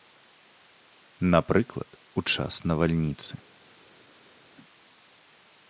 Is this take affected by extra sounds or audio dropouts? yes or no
no